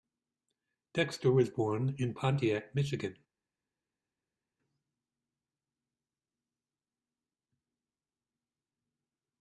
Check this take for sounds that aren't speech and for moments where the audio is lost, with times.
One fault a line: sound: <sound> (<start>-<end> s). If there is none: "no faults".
no faults